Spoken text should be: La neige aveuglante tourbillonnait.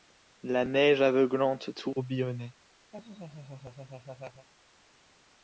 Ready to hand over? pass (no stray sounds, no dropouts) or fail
fail